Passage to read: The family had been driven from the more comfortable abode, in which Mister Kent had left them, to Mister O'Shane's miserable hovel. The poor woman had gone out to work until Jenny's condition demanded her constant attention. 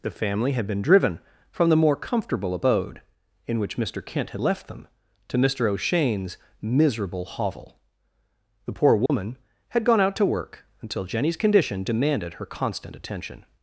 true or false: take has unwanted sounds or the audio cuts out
true